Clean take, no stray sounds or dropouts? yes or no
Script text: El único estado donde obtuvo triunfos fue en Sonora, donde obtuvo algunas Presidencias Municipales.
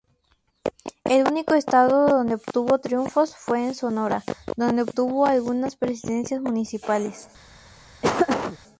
no